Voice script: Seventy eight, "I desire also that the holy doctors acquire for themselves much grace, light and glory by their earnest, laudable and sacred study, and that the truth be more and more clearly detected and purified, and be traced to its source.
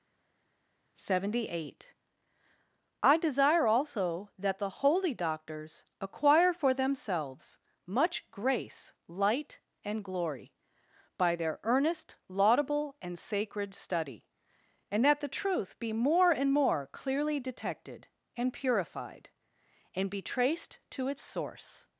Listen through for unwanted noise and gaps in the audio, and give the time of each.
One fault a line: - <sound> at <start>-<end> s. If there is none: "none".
none